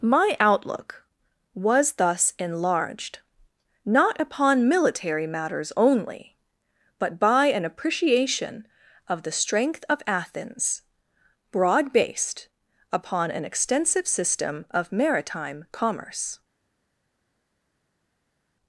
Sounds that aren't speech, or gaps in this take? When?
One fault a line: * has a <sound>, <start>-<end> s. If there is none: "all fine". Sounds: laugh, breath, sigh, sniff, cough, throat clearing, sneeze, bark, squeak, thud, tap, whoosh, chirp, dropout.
all fine